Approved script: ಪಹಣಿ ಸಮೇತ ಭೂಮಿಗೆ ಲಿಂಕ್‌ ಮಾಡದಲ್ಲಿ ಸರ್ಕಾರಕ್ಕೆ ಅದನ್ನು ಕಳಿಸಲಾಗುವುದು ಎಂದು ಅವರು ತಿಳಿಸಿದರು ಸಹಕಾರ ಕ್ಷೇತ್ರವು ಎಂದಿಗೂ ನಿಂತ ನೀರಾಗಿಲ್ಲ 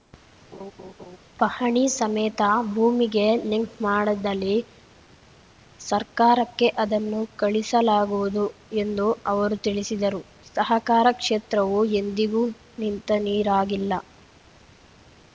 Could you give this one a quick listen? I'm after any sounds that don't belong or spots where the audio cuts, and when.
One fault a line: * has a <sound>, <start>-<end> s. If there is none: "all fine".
* has a laugh, 0.5-1.2 s